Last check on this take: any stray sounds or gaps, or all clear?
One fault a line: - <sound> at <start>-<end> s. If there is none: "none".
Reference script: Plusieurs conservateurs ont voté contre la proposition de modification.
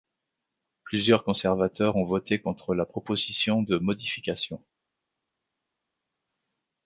none